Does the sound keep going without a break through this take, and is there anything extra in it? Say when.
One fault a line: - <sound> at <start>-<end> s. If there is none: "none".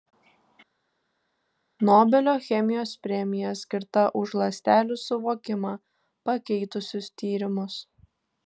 none